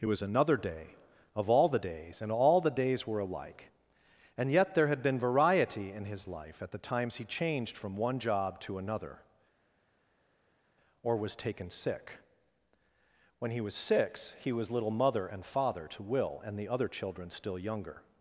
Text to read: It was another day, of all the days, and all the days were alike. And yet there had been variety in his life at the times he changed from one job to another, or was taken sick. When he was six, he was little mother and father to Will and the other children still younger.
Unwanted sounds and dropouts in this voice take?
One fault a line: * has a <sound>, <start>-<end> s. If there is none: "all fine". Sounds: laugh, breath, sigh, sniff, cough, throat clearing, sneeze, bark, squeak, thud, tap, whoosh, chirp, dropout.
all fine